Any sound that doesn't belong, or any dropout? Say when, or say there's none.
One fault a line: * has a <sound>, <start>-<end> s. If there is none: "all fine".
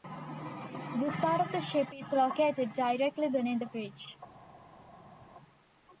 all fine